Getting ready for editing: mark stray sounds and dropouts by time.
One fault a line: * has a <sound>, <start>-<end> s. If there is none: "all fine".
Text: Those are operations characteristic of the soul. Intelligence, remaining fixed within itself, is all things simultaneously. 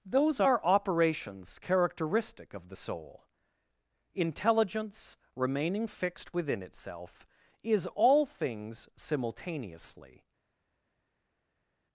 all fine